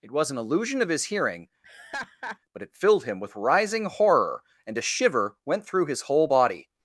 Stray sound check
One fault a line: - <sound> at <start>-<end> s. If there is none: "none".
- laugh at 1.6-2.4 s